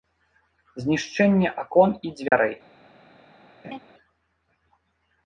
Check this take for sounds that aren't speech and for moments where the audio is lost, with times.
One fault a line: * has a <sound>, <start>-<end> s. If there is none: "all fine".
* has a dropout, 2.3-2.3 s
* has a laugh, 3.6-3.8 s